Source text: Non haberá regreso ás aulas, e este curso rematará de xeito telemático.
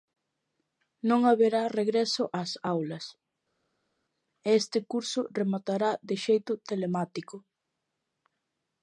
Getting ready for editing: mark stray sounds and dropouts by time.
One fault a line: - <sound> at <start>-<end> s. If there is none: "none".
none